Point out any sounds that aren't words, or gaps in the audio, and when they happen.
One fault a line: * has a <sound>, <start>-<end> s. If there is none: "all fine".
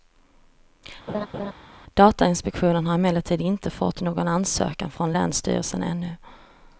* has a laugh, 1.1-1.5 s